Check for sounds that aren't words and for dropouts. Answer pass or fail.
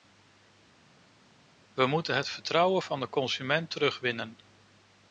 pass